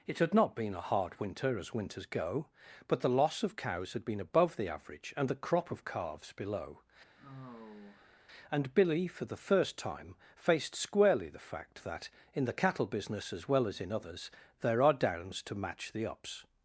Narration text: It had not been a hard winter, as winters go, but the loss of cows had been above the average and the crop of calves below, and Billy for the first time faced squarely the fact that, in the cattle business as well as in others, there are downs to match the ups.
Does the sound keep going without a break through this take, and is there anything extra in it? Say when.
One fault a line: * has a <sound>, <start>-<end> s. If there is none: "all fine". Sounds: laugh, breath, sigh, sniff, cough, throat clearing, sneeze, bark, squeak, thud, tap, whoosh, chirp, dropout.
* has a sigh, 7.2-8.3 s